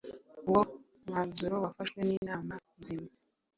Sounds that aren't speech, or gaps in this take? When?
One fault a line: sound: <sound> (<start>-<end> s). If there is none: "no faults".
sound: dropout (2.2-2.2 s)